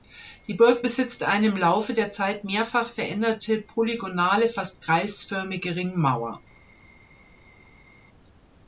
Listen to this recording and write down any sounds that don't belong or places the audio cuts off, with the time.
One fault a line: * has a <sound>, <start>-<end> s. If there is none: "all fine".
all fine